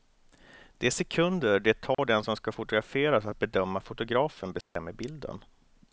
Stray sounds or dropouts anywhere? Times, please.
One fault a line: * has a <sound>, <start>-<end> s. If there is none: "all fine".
* has a dropout, 1.9-2.0 s
* has a dropout, 4.6-4.8 s